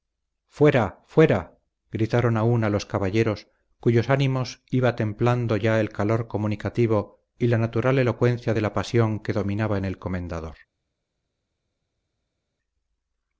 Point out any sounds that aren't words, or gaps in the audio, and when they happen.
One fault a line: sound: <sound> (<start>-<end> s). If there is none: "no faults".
no faults